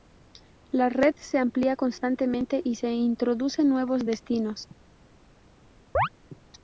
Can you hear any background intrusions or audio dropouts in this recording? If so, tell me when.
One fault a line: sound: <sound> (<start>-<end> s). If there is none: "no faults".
sound: chirp (5.9-6.1 s)